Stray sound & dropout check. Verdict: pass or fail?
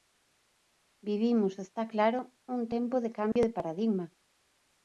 fail